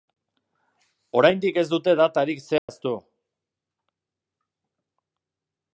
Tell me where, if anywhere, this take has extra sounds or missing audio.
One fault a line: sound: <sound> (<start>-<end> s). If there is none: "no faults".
sound: dropout (2.6-2.7 s)